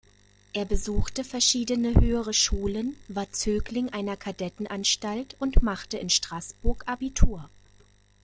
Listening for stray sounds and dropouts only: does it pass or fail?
pass